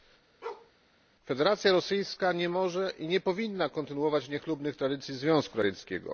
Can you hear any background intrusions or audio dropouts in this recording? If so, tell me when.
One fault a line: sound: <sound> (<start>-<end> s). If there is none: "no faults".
sound: bark (0.4-0.7 s)